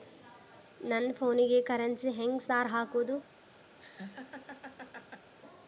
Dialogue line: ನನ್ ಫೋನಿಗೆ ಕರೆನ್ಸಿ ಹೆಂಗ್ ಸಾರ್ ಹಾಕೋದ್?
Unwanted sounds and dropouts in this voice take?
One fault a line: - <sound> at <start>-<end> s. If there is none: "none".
- laugh at 3.8-5.3 s